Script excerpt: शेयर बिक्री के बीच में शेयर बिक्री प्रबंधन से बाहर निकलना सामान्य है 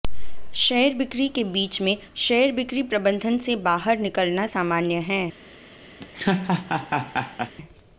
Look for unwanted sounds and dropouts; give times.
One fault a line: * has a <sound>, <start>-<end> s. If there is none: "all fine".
* has a laugh, 6.0-7.5 s